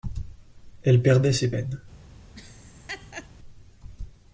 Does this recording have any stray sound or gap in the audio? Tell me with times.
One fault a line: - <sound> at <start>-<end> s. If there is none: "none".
- laugh at 2.4-3.3 s